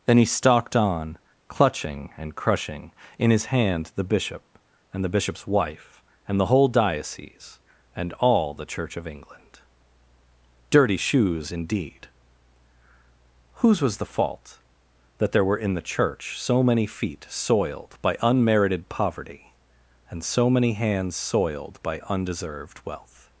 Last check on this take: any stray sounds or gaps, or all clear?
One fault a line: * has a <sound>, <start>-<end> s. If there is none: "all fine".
all fine